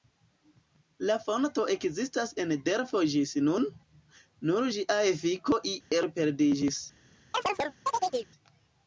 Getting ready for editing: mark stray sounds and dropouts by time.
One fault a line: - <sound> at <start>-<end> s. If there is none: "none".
- dropout at 5.8-5.9 s
- chirp at 7.3-8.3 s